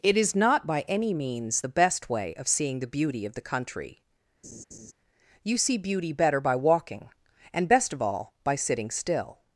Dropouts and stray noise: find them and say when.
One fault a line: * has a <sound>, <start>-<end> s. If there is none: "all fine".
* has a laugh, 4.4-4.9 s